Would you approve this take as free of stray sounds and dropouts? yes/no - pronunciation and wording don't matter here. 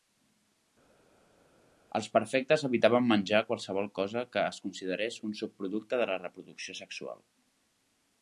yes